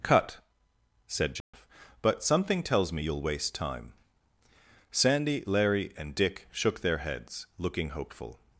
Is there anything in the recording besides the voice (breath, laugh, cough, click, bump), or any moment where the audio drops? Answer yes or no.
yes